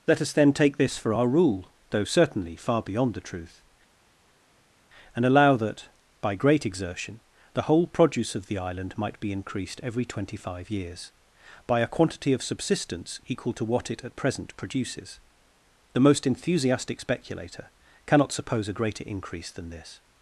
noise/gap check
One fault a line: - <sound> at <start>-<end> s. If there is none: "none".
none